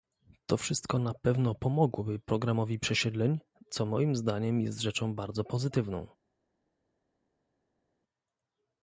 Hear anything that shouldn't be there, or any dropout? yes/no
no